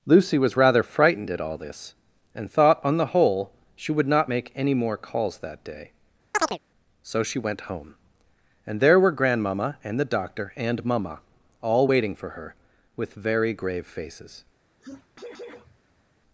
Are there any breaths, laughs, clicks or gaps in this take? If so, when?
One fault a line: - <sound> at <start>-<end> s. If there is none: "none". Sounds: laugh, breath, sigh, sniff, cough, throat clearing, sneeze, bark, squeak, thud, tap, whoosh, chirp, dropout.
- chirp at 6.3-6.6 s
- sneeze at 14.8-16.0 s